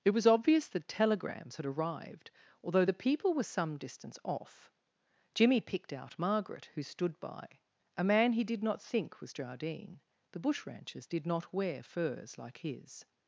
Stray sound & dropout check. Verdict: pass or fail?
pass